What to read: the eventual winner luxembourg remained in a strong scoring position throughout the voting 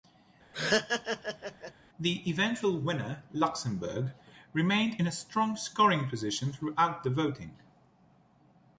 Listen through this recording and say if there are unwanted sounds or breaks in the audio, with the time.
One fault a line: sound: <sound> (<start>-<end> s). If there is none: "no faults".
sound: laugh (0.5-1.7 s)